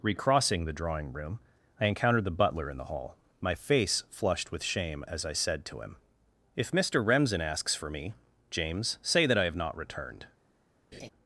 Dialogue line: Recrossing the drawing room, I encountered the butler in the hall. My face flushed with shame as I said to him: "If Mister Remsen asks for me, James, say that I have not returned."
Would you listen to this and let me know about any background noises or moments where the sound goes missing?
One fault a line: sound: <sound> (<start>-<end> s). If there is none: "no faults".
sound: laugh (10.9-11.1 s)